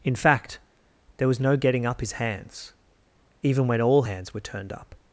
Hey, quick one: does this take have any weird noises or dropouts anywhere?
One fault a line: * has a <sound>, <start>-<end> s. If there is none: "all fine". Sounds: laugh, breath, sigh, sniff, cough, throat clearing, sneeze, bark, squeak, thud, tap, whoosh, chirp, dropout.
all fine